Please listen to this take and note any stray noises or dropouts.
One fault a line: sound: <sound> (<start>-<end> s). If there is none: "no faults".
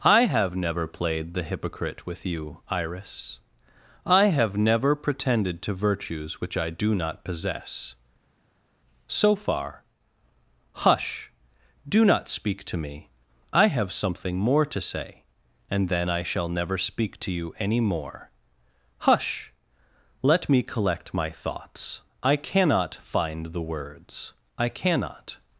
no faults